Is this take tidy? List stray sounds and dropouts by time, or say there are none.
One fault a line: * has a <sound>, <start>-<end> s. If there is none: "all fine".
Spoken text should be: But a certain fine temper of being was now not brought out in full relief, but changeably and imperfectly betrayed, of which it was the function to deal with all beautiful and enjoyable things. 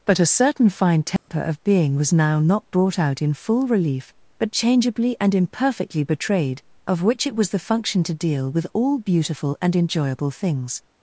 * has a dropout, 1.2-1.3 s